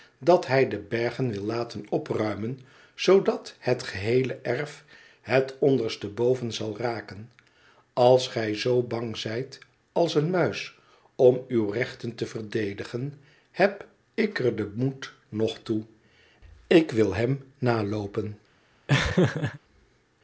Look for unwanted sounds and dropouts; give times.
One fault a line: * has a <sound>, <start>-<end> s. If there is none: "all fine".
* has a laugh, 18.9-19.6 s